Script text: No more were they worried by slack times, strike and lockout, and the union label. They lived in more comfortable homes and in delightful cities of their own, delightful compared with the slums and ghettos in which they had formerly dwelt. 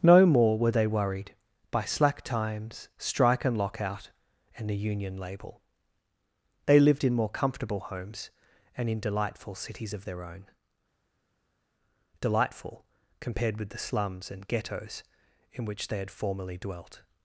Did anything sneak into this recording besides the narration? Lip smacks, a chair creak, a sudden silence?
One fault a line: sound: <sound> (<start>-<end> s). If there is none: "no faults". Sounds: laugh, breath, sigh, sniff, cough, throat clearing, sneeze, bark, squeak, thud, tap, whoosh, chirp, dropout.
no faults